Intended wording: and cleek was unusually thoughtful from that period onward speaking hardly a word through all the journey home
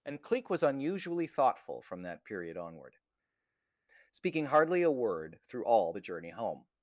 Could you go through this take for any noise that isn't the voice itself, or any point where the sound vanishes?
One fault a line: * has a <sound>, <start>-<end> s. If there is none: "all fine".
all fine